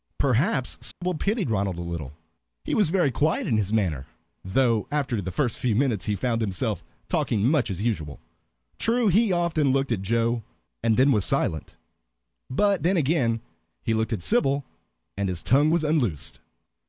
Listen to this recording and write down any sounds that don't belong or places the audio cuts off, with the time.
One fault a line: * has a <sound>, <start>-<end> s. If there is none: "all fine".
* has a dropout, 0.9-1.0 s